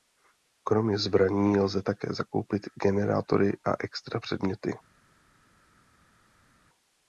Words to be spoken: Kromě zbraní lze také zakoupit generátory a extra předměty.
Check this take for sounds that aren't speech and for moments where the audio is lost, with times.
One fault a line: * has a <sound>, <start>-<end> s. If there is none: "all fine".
all fine